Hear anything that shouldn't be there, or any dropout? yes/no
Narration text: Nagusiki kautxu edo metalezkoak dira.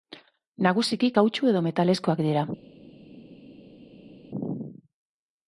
no